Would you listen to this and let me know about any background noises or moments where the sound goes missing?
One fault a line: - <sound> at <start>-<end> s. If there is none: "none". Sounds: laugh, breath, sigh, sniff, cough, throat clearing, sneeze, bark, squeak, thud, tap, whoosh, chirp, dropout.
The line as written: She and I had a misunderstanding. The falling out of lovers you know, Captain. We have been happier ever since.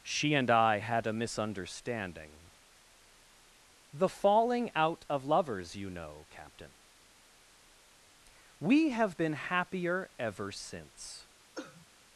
- cough at 11.6-11.9 s